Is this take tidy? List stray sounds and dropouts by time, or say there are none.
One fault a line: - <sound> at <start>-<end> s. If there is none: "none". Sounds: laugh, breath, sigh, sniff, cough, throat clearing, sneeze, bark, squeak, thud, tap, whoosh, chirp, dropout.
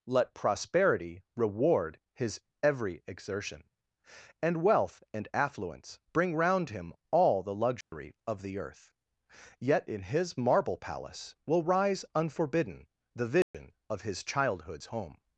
- dropout at 7.8-7.9 s
- dropout at 13.4-13.5 s